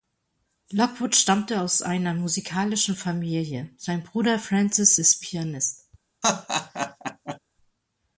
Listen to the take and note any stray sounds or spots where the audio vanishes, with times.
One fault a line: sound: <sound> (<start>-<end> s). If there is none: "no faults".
sound: laugh (6.2-7.4 s)